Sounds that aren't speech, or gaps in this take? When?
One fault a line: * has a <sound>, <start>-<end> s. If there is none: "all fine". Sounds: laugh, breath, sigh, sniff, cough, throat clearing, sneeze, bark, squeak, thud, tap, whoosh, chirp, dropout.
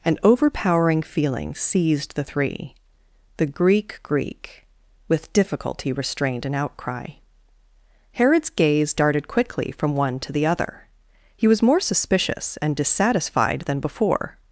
all fine